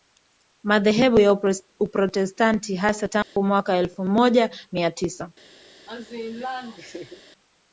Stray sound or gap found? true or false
true